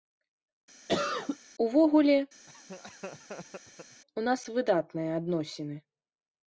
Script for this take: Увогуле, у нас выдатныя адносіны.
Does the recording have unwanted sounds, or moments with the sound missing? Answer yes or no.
yes